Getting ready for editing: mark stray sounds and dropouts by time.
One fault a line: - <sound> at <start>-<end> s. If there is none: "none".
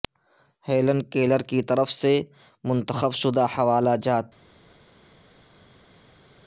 none